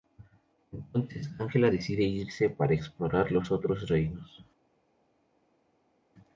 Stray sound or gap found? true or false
false